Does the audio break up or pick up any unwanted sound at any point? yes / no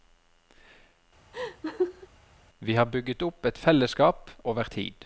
yes